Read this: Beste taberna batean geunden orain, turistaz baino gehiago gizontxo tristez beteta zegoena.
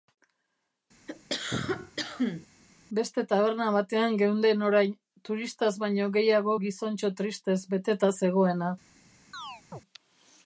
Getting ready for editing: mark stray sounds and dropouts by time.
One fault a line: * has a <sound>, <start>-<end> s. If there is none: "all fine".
* has a cough, 1.1-2.5 s
* has a chirp, 9.3-9.8 s